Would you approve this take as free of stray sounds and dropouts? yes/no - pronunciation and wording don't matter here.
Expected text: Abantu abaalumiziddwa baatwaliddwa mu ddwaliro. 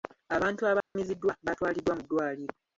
no